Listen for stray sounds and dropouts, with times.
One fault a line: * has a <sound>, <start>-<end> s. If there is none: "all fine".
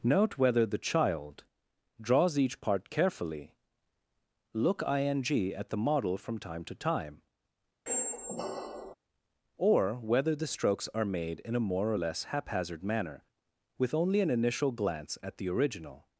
* has a squeak, 7.9-8.9 s